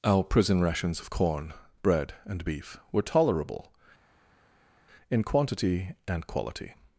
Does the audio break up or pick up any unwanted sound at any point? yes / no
no